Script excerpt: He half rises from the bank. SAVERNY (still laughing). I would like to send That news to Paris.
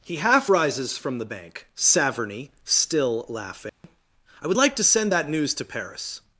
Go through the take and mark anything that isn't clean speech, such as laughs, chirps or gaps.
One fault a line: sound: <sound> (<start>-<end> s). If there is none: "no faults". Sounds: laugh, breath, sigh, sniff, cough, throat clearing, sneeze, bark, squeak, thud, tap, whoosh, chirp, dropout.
sound: dropout (3.7-3.8 s)